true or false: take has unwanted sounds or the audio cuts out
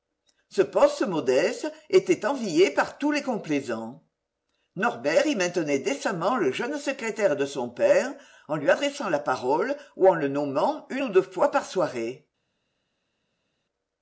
false